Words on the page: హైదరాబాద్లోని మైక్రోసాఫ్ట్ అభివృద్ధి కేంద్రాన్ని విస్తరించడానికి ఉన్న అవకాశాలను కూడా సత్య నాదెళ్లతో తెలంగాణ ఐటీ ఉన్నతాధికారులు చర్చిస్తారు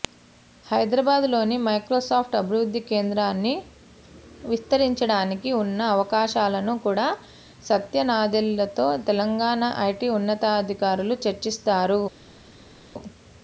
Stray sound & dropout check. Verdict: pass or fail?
pass